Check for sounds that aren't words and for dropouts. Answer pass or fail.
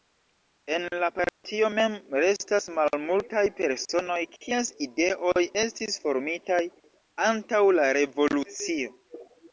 fail